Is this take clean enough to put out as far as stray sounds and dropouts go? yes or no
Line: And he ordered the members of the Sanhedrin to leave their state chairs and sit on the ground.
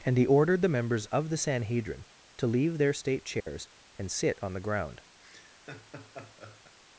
no